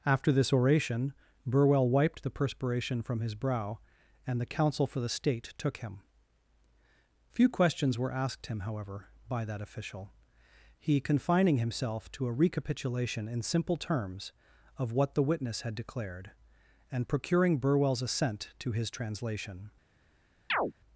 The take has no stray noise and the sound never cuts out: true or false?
false